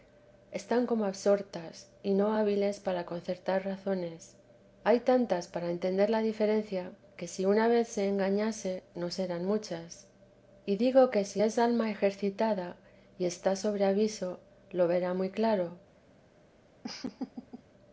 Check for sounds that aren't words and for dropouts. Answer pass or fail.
fail